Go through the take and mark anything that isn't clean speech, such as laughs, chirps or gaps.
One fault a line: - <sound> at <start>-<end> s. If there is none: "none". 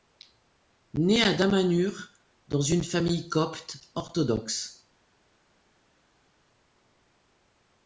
none